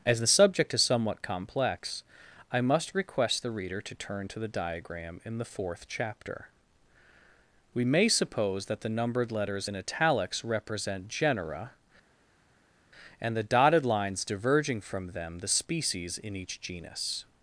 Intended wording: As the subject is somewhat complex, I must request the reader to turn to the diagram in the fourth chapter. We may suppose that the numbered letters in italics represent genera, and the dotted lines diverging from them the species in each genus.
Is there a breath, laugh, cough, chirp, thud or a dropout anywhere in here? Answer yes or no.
no